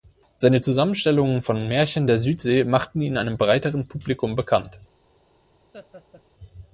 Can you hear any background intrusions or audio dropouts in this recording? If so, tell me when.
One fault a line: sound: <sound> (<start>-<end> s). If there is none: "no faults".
sound: laugh (5.7-6.2 s)